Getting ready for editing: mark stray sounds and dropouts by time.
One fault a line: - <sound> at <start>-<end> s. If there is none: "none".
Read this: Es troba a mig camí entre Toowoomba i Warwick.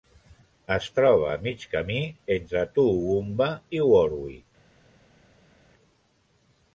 none